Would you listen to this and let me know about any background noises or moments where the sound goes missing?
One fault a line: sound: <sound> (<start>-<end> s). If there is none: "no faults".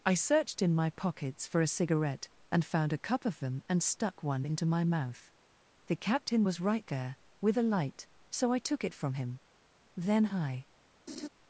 sound: laugh (11.1-11.3 s)